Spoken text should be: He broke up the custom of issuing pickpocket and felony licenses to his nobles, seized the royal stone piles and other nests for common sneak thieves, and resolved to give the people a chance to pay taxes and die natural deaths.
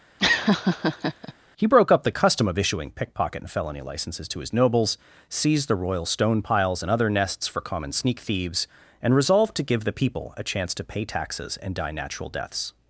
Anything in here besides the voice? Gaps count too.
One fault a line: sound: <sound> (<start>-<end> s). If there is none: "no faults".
sound: laugh (0.2-1.3 s)